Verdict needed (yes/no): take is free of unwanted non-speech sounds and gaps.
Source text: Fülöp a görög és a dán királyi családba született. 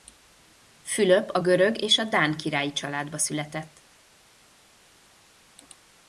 yes